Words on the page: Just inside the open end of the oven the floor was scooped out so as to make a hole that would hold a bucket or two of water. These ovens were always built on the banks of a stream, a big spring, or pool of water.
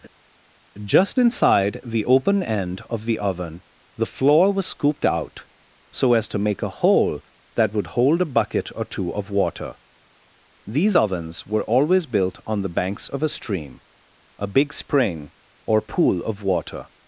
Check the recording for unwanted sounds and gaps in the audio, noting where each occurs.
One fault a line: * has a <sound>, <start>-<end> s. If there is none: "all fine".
all fine